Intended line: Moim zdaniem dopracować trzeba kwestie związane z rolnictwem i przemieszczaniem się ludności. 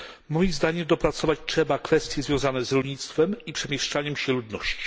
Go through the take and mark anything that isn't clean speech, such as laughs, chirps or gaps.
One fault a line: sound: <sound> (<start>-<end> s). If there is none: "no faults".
no faults